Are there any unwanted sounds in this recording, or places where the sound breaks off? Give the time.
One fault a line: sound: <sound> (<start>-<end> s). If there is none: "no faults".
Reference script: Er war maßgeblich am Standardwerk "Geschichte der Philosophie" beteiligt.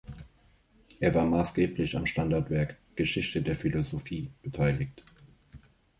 no faults